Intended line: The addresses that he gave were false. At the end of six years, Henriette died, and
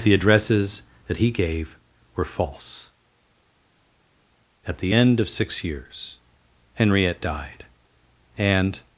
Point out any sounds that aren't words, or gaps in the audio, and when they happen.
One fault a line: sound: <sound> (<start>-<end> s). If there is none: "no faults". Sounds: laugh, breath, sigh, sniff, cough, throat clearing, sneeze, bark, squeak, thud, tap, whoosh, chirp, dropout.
no faults